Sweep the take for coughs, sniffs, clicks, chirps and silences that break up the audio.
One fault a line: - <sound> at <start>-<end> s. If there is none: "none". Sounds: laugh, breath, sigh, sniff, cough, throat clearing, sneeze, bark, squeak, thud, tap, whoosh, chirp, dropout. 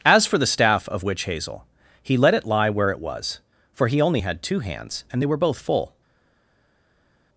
none